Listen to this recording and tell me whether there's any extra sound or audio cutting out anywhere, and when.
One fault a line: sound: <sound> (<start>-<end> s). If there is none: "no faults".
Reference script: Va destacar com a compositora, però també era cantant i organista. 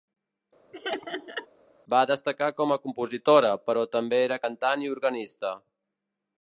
sound: laugh (0.7-1.5 s)